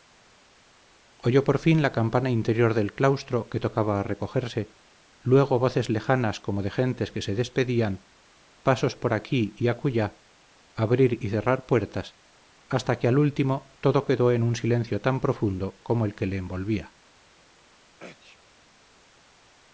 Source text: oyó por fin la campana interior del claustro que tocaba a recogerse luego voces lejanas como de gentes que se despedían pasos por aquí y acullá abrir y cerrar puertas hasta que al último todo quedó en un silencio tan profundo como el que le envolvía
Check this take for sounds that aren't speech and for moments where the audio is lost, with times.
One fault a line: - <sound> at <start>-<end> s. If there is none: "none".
- sneeze at 18.0-18.4 s